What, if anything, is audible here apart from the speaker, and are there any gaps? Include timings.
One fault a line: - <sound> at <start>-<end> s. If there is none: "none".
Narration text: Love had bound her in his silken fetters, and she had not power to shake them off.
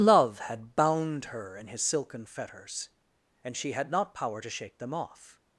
none